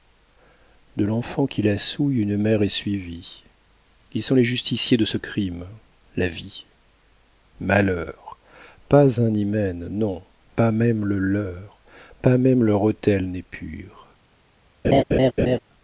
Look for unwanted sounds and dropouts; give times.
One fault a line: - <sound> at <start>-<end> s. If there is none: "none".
- laugh at 14.8-15.6 s